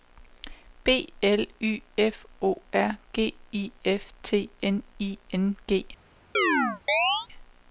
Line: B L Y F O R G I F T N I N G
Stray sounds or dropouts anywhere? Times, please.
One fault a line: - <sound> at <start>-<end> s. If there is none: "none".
- chirp at 6.3-7.3 s